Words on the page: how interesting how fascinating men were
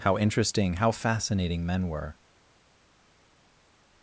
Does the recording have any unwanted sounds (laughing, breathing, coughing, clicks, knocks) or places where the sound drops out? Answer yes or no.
no